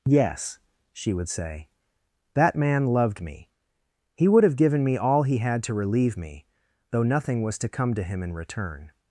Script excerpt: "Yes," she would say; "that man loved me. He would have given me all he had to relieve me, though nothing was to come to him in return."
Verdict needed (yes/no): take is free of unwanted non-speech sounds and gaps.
yes